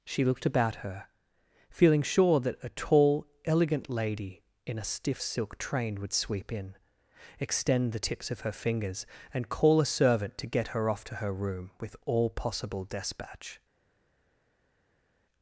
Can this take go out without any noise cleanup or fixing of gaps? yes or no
yes